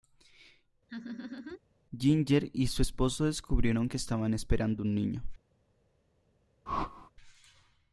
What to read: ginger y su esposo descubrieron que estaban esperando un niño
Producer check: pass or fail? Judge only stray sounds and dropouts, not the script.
fail